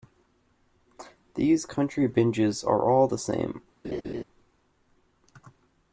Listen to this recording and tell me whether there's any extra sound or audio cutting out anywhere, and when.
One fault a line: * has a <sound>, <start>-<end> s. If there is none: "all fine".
* has a laugh, 3.8-4.2 s